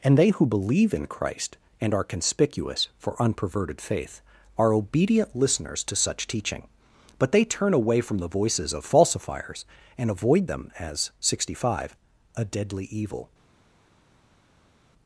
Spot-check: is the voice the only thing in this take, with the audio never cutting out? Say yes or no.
yes